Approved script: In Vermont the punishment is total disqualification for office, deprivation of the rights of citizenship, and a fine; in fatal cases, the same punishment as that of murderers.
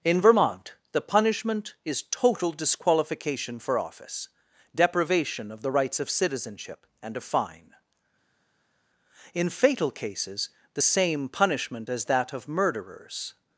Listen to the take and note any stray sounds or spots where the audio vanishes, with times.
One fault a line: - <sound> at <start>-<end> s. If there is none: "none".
none